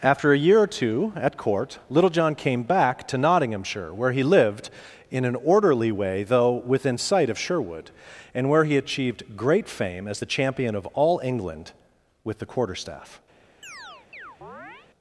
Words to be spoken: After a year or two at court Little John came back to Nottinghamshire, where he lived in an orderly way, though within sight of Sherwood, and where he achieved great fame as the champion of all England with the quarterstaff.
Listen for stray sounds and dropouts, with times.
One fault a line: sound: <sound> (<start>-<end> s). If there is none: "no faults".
sound: chirp (13.6-14.9 s)